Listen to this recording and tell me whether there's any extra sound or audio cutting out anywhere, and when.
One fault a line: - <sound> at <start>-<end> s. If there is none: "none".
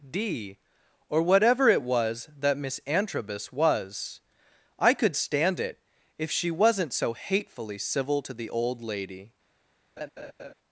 - laugh at 10.0-10.5 s